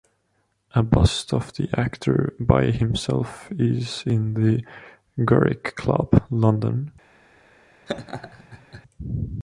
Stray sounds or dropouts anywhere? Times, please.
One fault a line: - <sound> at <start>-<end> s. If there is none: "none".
- laugh at 7.9-8.8 s